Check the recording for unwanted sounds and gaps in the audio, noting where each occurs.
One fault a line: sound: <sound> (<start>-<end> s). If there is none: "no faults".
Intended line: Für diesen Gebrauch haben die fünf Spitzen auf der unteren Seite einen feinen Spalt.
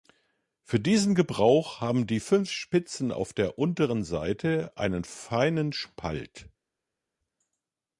no faults